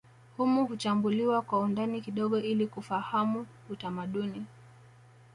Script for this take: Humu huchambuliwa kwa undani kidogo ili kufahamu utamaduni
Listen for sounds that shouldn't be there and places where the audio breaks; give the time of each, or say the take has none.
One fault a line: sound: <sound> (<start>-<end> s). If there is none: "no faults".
no faults